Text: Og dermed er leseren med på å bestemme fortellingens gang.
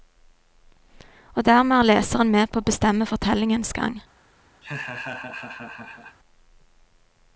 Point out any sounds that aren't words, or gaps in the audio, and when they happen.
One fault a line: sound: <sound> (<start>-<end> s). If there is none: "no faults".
sound: laugh (4.6-6.2 s)